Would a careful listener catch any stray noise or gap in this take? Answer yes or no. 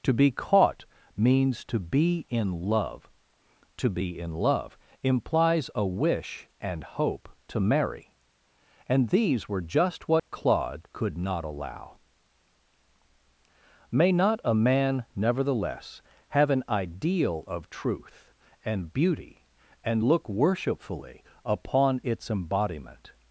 yes